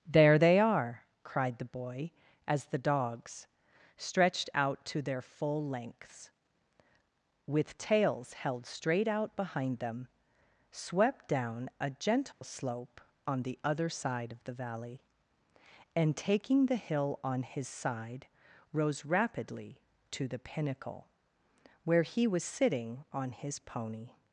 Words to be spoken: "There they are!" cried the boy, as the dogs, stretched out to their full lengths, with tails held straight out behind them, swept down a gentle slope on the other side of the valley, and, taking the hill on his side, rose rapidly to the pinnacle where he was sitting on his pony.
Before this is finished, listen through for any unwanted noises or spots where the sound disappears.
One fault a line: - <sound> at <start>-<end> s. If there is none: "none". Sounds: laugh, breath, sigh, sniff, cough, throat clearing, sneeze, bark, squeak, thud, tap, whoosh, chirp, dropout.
- dropout at 12.3-12.4 s